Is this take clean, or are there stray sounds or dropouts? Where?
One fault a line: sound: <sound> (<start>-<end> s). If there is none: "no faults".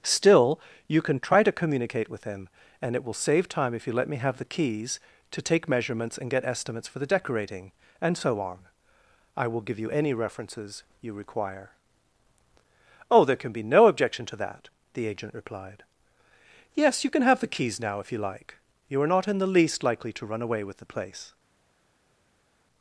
no faults